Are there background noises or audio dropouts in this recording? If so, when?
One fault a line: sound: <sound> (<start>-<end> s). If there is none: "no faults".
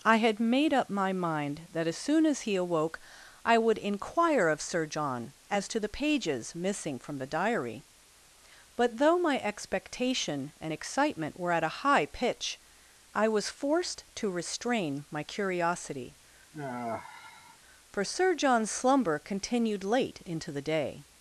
sound: sigh (16.5-17.6 s)